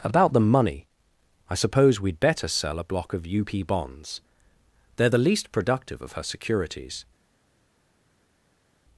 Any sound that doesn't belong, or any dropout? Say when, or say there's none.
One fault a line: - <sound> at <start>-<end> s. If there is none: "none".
none